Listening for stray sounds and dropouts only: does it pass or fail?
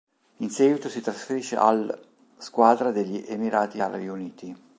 pass